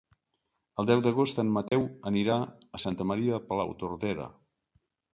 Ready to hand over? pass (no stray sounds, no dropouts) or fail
fail